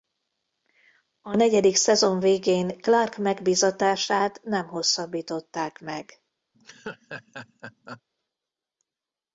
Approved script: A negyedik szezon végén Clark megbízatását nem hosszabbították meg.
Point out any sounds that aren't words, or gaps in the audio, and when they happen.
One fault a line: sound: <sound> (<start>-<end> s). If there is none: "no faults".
sound: laugh (6.5-8.0 s)